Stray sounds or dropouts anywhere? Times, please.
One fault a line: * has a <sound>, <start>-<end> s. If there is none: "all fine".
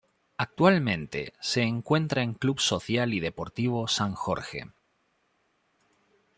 all fine